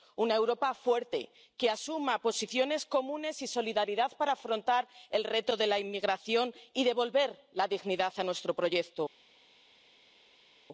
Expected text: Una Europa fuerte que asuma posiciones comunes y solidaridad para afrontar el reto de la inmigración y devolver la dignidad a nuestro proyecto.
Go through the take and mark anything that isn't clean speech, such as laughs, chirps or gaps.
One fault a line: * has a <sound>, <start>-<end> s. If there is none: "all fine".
all fine